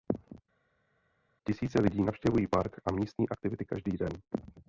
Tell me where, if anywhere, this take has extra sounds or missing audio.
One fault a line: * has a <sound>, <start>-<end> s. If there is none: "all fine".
all fine